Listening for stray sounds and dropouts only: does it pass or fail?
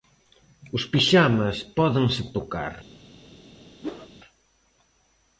fail